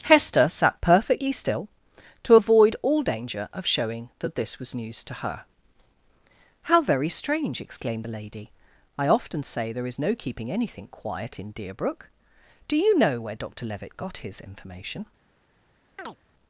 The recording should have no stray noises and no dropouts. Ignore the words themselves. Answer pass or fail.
fail